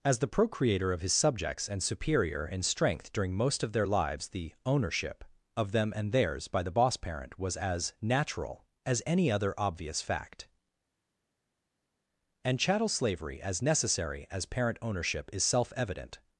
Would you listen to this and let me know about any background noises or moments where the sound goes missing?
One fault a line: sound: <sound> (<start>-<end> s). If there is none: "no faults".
no faults